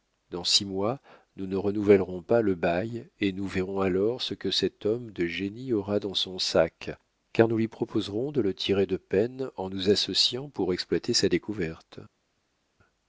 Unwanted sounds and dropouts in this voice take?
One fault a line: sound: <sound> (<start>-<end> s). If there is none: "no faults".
no faults